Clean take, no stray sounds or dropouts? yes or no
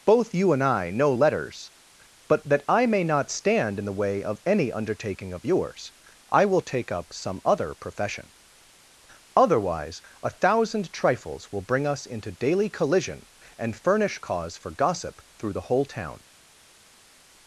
yes